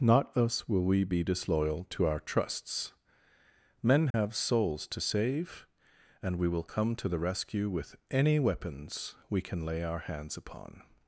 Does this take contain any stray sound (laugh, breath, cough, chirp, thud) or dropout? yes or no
yes